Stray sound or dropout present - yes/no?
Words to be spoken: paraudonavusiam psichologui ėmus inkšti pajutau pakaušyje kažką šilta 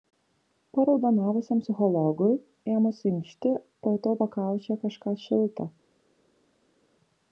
no